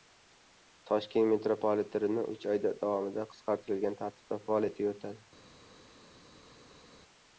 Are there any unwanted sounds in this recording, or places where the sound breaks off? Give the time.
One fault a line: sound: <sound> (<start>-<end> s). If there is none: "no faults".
no faults